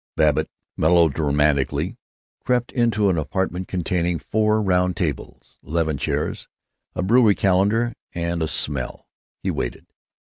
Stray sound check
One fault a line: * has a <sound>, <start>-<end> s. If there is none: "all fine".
all fine